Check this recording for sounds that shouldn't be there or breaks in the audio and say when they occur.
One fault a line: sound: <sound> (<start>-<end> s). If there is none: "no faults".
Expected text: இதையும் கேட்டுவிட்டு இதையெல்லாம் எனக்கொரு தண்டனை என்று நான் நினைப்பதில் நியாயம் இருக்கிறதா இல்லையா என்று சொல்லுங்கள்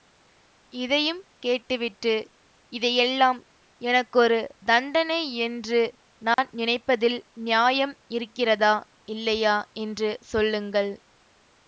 sound: dropout (6.3-6.4 s)